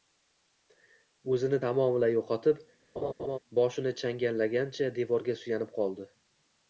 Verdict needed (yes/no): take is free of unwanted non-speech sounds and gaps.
no